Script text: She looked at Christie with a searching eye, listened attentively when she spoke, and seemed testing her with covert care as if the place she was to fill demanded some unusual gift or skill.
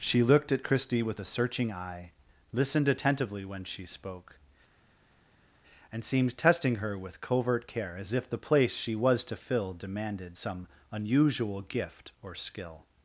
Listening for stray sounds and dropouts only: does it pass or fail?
pass